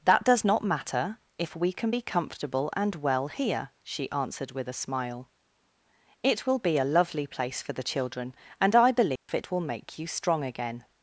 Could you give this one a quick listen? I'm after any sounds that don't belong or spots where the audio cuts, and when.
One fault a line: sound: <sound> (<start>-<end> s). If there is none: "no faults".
sound: dropout (9.2-9.3 s)